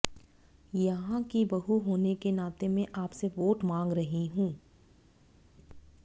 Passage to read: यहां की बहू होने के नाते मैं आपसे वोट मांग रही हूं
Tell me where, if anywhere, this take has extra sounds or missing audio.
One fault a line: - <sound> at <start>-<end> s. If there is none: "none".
none